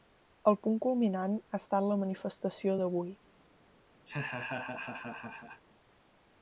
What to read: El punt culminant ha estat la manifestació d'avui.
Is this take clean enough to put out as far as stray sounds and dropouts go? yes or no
no